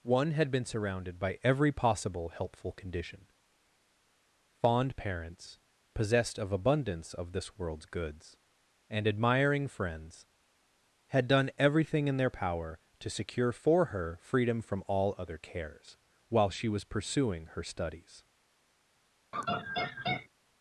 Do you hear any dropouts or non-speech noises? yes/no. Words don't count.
yes